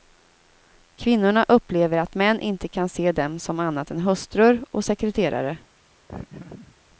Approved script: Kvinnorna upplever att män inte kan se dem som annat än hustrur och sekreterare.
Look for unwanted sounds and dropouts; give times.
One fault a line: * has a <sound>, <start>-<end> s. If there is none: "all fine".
* has a laugh, 6.1-6.8 s